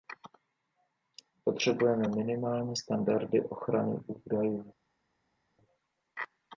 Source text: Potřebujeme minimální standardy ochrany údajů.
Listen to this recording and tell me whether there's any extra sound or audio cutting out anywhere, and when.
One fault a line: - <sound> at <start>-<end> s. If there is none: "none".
none